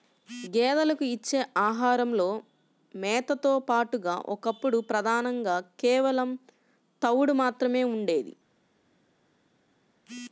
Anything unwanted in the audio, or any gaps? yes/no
no